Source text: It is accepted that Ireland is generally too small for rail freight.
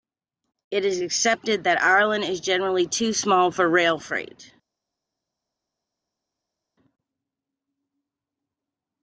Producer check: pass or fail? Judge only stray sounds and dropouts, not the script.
pass